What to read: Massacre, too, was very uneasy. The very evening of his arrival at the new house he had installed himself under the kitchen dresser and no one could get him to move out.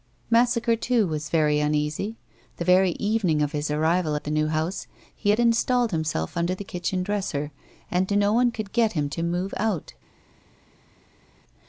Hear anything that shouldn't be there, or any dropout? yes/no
no